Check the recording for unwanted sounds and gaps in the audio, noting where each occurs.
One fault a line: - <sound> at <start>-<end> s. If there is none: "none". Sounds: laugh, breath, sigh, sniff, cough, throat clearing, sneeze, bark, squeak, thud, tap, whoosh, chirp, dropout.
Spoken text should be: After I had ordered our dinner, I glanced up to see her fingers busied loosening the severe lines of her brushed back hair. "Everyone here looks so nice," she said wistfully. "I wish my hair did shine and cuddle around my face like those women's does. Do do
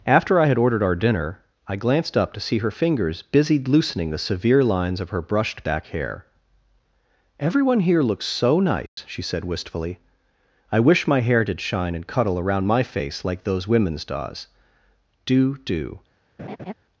- dropout at 8.9-9.0 s
- laugh at 16.4-16.7 s